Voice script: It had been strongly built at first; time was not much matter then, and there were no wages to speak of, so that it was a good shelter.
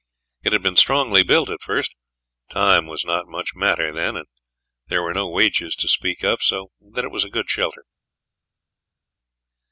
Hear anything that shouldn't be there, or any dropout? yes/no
no